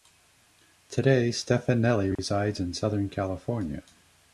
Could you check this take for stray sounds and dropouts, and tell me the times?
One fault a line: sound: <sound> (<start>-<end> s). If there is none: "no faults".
sound: dropout (2.2-2.2 s)